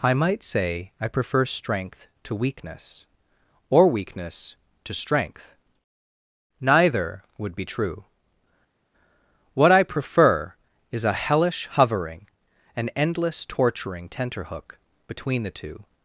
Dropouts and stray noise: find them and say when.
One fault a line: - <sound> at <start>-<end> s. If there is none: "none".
none